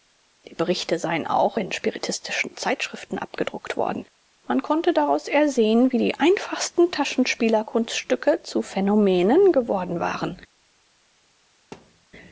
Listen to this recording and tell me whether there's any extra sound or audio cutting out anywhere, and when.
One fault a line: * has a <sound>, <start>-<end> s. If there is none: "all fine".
* has a thud, 11.7-12.1 s